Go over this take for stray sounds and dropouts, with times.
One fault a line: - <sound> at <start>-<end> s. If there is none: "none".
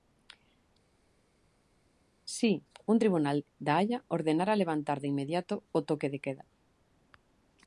none